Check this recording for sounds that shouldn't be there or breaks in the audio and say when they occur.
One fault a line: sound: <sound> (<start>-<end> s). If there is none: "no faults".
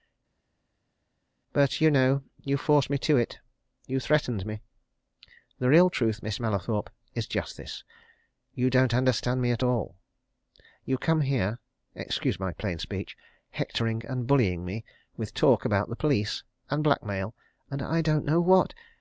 no faults